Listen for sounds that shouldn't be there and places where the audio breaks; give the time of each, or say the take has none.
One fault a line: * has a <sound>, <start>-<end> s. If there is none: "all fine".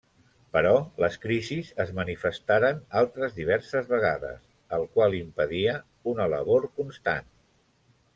all fine